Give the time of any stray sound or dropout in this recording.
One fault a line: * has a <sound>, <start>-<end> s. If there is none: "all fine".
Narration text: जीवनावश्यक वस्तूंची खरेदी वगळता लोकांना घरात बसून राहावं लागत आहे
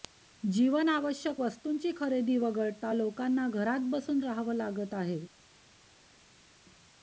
all fine